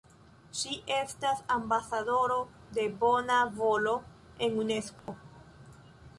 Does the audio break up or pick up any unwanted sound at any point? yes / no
yes